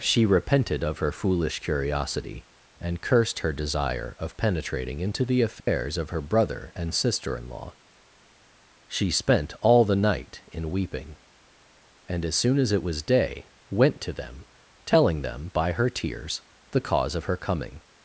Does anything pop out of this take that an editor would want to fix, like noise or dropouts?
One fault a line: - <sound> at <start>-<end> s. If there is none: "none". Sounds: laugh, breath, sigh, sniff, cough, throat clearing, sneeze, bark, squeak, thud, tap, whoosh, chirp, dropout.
- dropout at 5.6-5.7 s